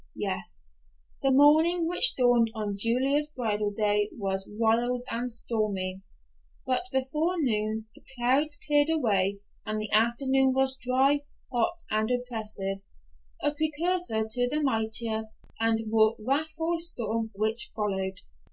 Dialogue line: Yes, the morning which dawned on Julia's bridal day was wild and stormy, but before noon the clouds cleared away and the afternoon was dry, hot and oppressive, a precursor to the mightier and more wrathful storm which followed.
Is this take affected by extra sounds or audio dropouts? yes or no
no